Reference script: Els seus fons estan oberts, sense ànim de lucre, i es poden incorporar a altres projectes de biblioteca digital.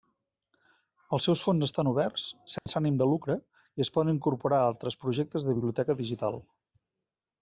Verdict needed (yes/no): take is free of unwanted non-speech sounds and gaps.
no